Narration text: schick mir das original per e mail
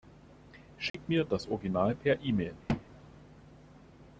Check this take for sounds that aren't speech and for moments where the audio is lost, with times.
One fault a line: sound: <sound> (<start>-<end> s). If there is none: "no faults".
sound: dropout (0.9-0.9 s)
sound: thud (2.7-2.8 s)